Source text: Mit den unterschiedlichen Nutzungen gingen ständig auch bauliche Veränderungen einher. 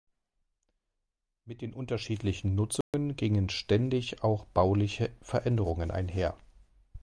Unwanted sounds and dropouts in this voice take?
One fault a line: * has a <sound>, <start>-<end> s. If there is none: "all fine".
* has a dropout, 2.8-2.9 s